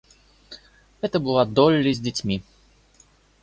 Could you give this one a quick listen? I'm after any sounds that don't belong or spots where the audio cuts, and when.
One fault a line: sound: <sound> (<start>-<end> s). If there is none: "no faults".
no faults